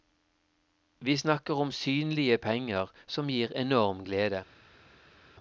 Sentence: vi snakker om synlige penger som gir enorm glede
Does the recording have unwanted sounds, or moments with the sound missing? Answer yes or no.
no